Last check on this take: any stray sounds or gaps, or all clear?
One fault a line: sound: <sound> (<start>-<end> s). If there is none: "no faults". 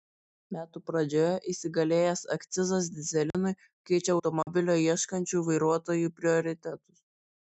sound: dropout (3.3-3.3 s)
sound: dropout (4.4-4.5 s)